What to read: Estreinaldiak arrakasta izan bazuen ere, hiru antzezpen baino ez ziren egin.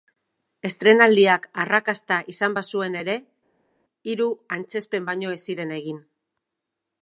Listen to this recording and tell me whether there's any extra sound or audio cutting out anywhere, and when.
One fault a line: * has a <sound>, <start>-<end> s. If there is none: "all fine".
all fine